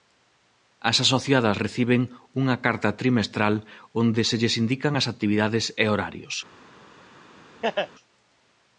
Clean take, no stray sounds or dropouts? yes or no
no